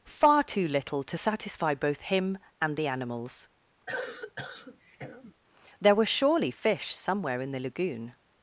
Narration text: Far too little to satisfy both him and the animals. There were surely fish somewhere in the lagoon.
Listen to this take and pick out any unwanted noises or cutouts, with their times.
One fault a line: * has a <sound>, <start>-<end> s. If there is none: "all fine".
* has a cough, 3.9-5.3 s